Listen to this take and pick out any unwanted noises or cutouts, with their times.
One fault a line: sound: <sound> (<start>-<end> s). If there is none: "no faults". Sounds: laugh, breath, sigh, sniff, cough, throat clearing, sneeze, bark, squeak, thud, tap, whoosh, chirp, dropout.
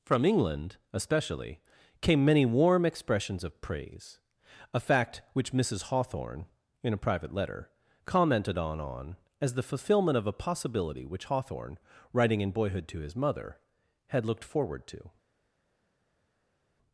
no faults